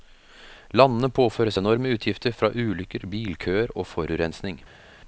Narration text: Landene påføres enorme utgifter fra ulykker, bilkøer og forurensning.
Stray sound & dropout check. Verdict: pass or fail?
pass